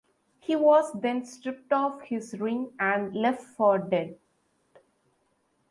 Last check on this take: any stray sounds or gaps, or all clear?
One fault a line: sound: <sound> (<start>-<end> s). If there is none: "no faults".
no faults